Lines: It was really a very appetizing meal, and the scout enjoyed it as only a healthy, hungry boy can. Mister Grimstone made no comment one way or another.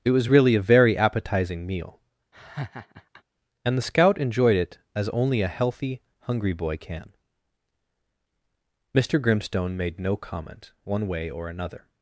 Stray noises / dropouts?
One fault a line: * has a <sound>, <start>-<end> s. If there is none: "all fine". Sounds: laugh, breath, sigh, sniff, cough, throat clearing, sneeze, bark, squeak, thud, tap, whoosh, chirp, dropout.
* has a laugh, 2.3-3.2 s